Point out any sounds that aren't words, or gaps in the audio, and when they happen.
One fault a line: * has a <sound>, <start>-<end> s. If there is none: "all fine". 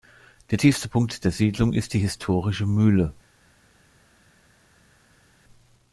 all fine